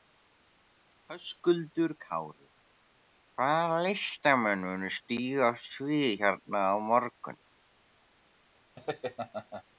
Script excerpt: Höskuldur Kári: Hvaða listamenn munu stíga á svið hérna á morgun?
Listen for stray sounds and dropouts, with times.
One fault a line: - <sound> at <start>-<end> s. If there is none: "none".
- laugh at 8.8-9.6 s